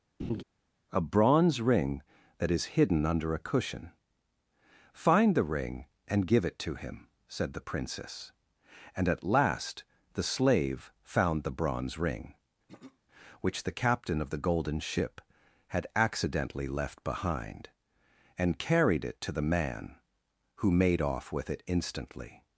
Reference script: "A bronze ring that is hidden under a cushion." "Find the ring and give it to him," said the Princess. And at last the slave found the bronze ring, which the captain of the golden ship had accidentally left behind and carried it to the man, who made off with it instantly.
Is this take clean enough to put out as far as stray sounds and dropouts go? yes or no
no